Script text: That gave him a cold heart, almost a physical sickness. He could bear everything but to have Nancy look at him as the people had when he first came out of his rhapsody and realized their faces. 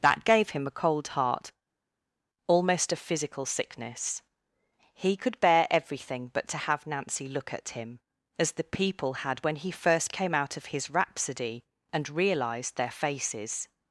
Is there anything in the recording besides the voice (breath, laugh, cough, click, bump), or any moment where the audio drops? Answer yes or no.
no